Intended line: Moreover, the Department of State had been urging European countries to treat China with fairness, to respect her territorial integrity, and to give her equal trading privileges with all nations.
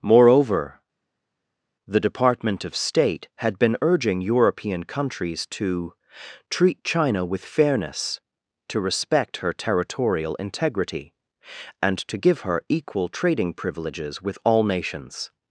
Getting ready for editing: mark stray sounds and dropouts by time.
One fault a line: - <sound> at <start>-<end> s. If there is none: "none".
none